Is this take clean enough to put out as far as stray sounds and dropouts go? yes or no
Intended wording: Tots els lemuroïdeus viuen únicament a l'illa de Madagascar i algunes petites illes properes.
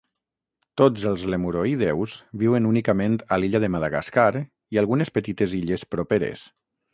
yes